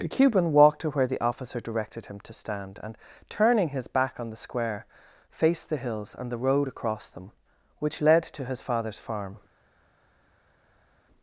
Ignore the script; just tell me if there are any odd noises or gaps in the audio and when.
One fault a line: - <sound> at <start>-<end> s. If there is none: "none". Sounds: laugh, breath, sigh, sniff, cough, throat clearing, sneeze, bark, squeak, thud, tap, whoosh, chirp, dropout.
none